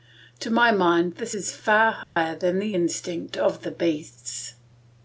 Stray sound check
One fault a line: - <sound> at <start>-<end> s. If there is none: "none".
- dropout at 2.0-2.2 s